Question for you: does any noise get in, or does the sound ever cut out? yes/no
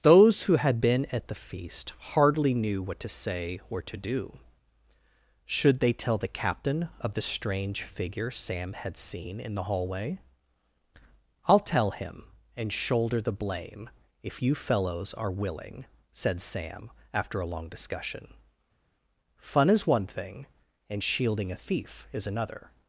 no